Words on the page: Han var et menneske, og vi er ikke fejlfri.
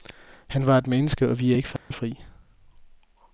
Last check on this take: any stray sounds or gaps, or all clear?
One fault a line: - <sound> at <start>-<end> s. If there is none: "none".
- dropout at 1.8-1.9 s